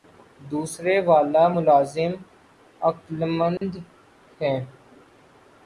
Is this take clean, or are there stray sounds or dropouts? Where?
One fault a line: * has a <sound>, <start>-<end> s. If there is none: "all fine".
* has a dropout, 3.6-3.6 s